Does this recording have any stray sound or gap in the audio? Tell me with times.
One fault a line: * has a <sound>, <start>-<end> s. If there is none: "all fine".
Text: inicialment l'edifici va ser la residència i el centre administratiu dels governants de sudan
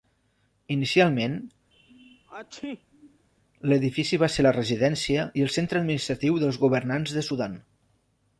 * has a sneeze, 1.7-3.3 s